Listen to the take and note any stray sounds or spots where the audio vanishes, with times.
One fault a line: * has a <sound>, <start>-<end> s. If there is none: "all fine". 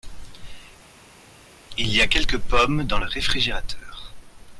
all fine